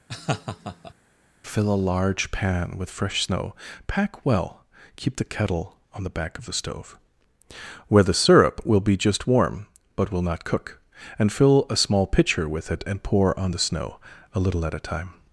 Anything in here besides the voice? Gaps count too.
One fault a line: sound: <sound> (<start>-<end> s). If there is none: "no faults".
sound: laugh (0.1-0.9 s)